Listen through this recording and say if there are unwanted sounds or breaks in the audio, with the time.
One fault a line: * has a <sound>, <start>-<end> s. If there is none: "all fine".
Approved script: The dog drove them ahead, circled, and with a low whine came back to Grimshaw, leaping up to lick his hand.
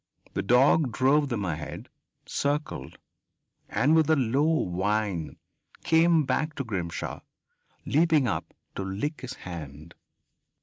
all fine